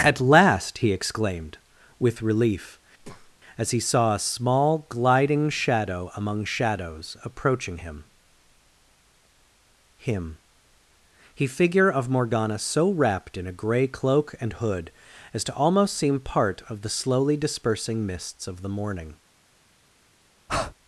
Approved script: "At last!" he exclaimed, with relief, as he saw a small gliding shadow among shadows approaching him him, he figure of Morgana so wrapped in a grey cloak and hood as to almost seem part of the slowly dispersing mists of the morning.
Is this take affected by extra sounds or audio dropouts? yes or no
yes